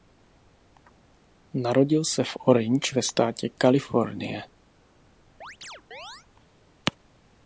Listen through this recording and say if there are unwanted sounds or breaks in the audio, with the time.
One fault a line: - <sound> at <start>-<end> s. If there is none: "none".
- chirp at 5.4-6.3 s